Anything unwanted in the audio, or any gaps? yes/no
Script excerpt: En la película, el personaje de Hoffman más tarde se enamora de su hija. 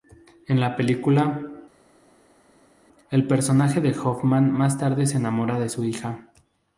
no